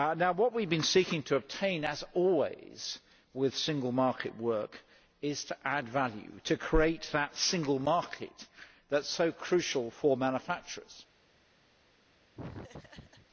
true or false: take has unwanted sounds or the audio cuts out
true